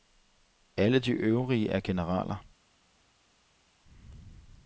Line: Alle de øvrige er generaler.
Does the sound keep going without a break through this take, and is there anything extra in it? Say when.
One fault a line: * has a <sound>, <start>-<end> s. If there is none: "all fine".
all fine